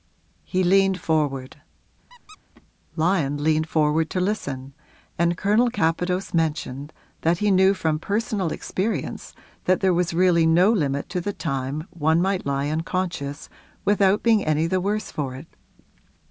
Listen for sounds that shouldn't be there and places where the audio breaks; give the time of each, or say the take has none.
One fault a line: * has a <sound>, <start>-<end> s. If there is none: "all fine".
* has a squeak, 2.1-2.4 s